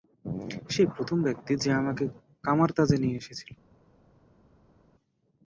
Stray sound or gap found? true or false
false